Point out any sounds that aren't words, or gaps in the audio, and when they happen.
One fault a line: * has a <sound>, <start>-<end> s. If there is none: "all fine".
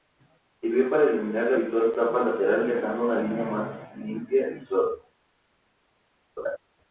* has a laugh, 6.4-6.6 s